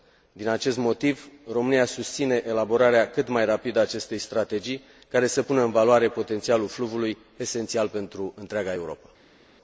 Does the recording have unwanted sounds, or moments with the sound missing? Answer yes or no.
no